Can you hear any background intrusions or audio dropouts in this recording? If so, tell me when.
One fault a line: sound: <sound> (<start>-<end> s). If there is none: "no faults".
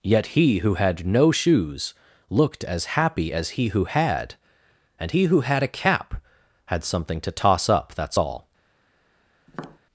sound: tap (9.5-9.8 s)